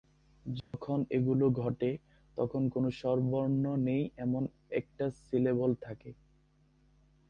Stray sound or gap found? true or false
true